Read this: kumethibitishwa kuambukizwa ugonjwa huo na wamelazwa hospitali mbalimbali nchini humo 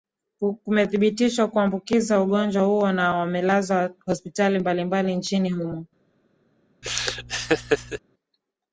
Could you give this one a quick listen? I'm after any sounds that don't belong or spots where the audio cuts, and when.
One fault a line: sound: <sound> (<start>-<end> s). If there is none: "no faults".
sound: laugh (6.8-8.0 s)